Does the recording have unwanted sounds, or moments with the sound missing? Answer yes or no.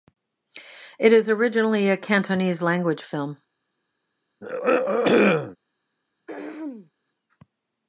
yes